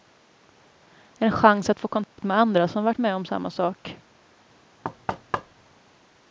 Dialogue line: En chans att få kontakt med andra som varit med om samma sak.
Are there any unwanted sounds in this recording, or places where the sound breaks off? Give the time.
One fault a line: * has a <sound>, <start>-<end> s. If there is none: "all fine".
* has a dropout, 2.0-2.2 s
* has a thud, 4.8-5.8 s